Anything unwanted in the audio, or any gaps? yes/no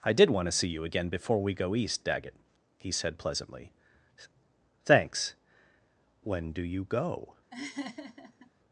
yes